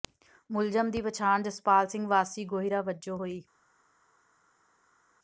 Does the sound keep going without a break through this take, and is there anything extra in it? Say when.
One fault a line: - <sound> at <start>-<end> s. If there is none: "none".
none